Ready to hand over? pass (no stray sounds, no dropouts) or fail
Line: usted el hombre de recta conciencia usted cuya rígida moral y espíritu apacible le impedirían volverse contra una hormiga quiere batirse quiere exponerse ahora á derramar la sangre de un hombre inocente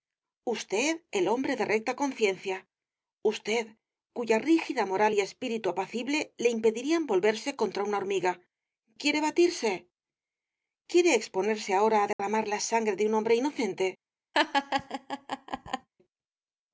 fail